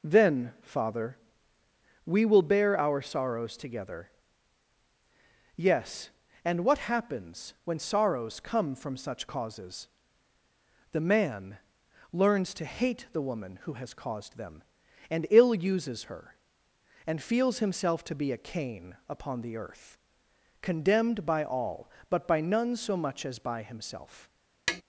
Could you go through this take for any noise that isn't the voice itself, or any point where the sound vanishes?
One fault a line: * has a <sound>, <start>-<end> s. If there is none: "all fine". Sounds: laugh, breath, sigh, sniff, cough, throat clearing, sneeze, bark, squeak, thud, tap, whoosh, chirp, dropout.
* has a tap, 24.7-24.8 s